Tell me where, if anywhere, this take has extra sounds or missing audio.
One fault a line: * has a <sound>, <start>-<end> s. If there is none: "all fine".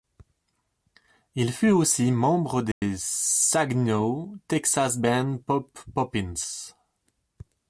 * has a dropout, 2.7-2.8 s